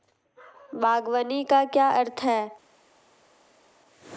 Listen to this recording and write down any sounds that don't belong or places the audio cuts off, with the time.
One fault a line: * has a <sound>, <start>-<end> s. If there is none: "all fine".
all fine